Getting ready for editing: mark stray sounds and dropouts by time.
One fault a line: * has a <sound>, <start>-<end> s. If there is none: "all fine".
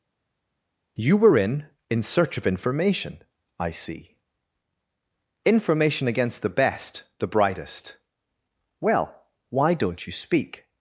all fine